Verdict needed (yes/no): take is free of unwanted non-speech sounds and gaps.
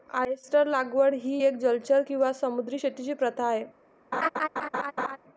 no